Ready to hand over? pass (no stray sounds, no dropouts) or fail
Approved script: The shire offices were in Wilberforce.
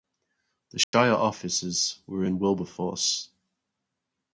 fail